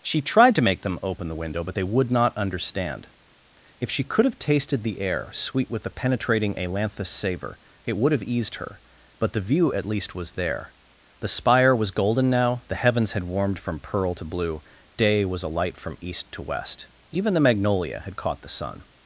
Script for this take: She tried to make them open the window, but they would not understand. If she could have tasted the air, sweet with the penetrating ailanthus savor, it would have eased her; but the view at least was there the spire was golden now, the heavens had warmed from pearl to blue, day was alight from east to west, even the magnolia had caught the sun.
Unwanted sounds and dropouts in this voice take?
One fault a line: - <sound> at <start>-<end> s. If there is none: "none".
none